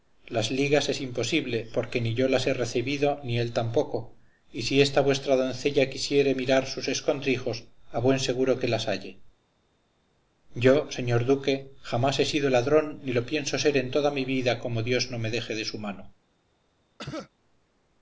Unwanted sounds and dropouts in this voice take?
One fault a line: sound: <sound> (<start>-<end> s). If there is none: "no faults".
sound: cough (17.0-17.3 s)